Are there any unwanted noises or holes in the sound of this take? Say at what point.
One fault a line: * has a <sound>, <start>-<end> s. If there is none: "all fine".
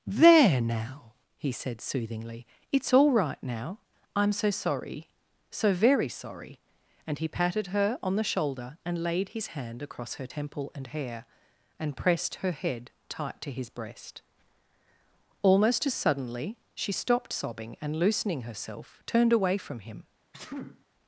* has a sneeze, 20.3-20.8 s